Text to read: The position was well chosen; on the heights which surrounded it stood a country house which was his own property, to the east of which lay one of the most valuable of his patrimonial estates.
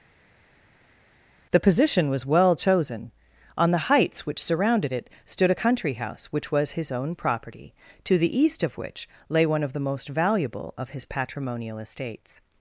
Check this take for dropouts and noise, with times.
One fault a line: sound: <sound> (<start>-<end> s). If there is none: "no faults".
no faults